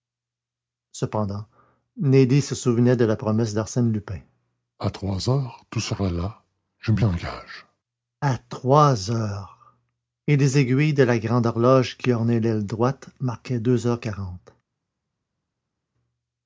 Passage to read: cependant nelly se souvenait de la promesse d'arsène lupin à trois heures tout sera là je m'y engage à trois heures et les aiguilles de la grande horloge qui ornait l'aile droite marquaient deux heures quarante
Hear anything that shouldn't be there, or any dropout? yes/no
no